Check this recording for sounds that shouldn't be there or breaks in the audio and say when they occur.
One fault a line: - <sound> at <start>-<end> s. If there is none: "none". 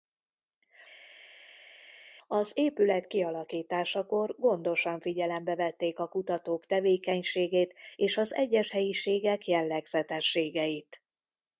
none